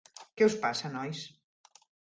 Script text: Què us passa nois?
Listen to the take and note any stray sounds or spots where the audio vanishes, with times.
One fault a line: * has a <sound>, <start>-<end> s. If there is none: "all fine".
all fine